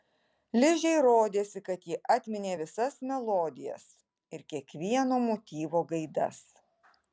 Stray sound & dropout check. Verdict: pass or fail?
pass